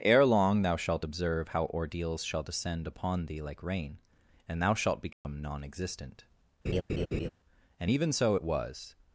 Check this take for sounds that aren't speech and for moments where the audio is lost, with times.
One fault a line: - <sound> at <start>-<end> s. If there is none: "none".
- dropout at 5.1-5.2 s
- laugh at 6.6-7.3 s